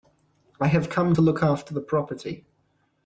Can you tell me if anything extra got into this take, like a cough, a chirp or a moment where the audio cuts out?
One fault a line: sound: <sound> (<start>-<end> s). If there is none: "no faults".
no faults